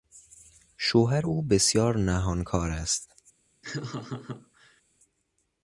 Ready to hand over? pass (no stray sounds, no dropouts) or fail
fail